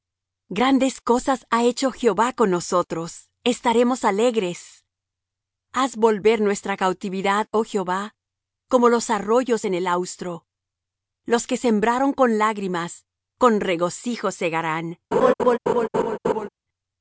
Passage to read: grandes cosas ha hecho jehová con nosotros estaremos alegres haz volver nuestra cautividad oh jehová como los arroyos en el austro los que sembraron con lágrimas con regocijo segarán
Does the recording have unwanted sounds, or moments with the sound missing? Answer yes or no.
yes